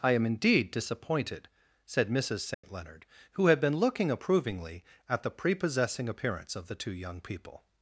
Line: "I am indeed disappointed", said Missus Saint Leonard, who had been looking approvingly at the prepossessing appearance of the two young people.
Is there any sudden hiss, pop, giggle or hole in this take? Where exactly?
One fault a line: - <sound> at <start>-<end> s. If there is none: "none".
- dropout at 2.5-2.6 s